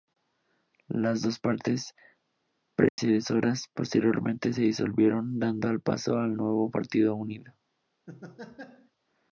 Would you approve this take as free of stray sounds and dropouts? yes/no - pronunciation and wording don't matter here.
no